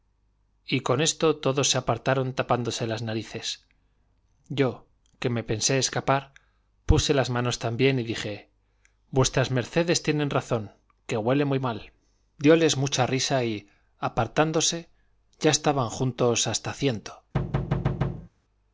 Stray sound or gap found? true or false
true